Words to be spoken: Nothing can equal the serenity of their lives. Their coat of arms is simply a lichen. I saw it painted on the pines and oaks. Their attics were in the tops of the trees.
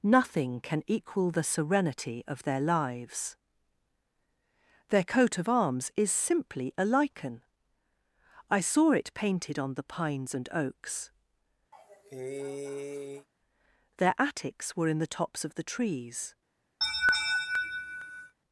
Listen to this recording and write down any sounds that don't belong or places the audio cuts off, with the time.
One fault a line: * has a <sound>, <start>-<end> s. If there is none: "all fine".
* has a cough, 11.7-13.3 s
* has a laugh, 16.8-18.3 s